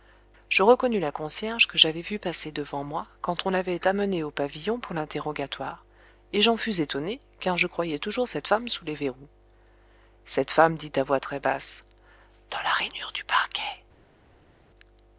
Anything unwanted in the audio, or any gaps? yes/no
no